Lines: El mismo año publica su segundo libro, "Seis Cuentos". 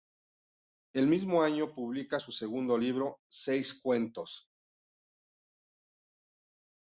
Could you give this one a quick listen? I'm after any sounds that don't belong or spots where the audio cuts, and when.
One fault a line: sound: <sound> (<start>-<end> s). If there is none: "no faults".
no faults